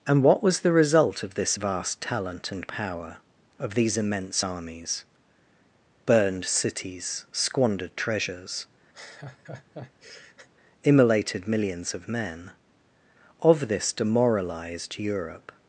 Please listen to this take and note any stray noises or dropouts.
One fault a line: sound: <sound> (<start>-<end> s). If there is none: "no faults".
sound: laugh (8.9-10.5 s)